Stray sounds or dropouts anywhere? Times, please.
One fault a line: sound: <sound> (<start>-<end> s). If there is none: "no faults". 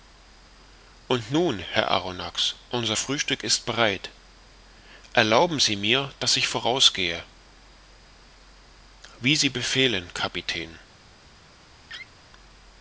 sound: laugh (11.9-12.1 s)